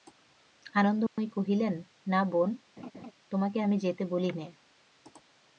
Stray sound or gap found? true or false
true